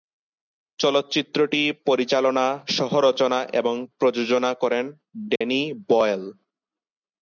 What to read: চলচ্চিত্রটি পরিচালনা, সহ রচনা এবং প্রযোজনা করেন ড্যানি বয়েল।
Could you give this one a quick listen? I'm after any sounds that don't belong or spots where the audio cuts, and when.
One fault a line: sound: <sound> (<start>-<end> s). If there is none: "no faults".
sound: dropout (5.4-5.4 s)